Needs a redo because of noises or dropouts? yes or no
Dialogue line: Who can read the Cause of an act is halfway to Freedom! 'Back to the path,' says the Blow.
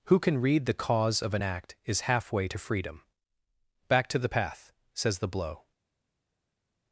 no